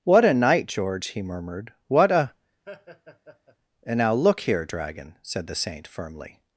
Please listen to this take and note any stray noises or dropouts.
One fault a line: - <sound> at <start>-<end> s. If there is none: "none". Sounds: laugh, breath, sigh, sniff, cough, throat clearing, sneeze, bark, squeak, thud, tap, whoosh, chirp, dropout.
- laugh at 2.7-3.6 s